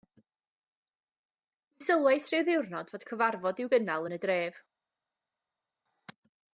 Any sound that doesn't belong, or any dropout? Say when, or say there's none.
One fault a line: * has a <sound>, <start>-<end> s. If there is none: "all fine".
all fine